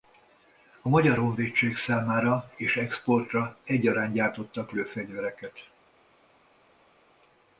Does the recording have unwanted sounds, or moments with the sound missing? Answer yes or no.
no